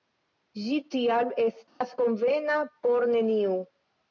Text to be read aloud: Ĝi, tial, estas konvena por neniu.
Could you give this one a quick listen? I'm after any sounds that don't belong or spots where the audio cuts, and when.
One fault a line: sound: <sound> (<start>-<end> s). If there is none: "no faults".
sound: dropout (1.7-1.8 s)